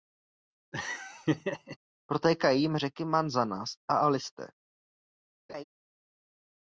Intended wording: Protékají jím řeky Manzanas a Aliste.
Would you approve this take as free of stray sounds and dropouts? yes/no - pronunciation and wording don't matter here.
no